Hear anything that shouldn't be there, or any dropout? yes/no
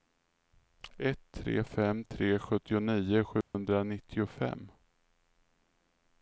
yes